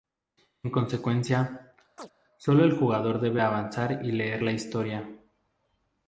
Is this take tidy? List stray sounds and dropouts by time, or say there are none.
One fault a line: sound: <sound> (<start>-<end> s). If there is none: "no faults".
sound: chirp (2.0-2.1 s)